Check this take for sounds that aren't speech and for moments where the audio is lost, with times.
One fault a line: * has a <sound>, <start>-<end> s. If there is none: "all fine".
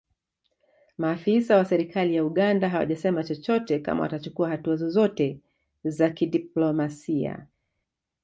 all fine